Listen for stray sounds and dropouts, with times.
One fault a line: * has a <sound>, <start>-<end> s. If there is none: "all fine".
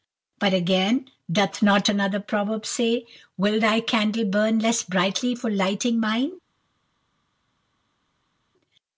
all fine